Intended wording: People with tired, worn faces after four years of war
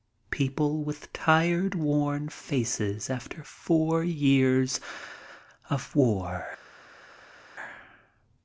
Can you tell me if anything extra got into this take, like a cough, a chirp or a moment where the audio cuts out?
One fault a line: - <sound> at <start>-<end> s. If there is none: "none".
none